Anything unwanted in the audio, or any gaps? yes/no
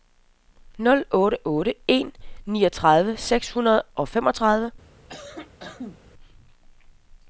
yes